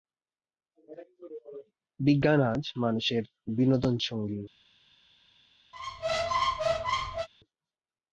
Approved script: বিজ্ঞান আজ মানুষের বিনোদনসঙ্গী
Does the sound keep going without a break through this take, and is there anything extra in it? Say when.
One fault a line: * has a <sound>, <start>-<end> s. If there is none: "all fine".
* has a squeak, 5.7-7.3 s